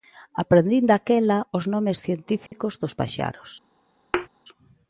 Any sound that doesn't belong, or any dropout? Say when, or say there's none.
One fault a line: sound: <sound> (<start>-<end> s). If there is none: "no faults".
sound: dropout (2.5-2.5 s)
sound: thud (4.1-4.3 s)